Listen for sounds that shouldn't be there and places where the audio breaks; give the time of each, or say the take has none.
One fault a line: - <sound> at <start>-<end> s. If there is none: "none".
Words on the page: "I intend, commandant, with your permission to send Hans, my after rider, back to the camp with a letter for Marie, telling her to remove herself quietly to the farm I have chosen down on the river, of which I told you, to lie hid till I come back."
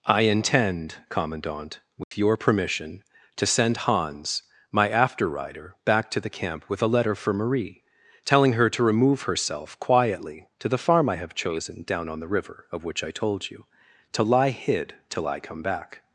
- dropout at 2.0-2.1 s